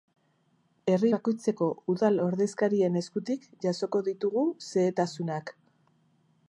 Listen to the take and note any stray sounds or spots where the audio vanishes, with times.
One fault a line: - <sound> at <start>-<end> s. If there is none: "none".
none